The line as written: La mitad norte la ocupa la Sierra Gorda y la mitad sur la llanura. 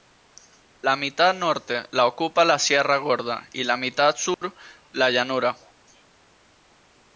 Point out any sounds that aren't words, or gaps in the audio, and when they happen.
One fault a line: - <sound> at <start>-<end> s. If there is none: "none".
- dropout at 4.3-4.4 s